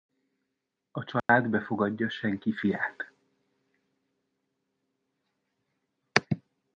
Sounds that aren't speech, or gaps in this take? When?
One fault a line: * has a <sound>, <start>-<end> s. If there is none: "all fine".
* has a dropout, 1.2-1.3 s